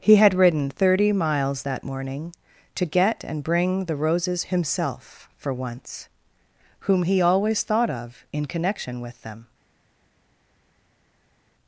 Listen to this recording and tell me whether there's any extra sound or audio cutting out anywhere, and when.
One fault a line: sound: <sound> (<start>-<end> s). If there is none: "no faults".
no faults